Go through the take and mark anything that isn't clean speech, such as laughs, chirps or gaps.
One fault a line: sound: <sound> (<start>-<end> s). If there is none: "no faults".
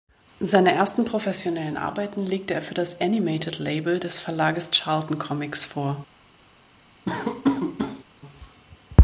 sound: laugh (7.1-8.0 s)